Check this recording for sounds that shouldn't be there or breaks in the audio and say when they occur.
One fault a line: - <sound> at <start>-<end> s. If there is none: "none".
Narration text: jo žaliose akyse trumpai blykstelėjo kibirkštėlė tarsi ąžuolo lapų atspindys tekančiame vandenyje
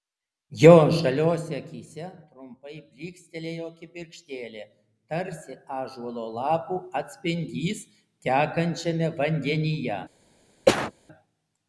- cough at 10.7-10.9 s